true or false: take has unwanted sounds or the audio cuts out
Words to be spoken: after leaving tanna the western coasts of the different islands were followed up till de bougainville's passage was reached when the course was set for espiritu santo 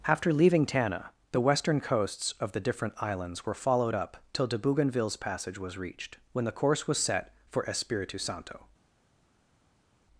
false